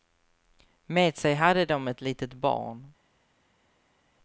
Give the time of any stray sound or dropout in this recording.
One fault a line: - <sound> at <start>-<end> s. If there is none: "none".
none